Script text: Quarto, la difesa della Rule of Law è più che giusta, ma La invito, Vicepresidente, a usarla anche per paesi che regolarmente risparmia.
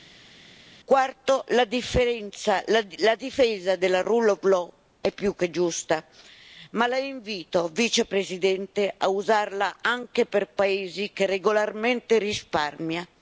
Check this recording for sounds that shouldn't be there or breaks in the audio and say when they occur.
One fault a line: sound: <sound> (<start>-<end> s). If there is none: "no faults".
no faults